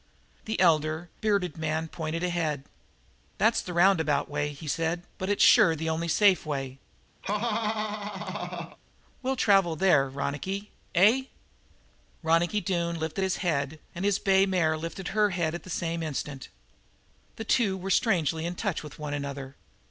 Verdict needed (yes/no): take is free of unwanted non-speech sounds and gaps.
no